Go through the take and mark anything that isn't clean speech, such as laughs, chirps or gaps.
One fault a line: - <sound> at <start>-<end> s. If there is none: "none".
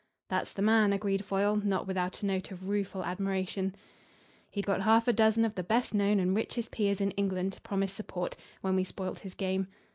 none